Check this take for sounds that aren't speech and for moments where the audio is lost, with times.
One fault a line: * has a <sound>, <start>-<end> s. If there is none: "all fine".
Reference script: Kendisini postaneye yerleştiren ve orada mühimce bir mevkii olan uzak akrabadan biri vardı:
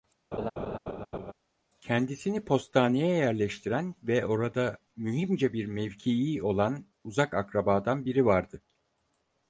* has a laugh, 0.3-1.3 s